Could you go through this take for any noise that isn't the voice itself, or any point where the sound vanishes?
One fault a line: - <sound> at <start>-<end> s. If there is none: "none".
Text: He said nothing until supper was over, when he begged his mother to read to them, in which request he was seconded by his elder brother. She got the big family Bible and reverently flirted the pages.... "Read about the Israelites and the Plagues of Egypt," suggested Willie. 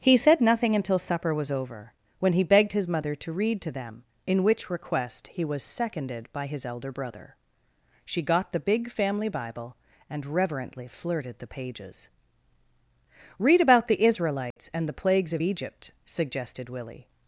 - dropout at 14.5-14.6 s